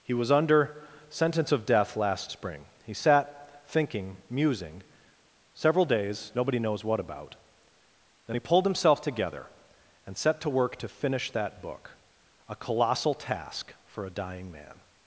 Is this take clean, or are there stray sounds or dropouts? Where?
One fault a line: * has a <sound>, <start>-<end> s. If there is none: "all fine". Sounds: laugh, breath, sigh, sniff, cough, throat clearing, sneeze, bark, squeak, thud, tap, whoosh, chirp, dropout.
all fine